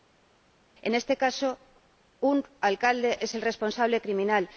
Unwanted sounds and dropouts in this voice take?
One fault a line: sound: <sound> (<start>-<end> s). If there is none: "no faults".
no faults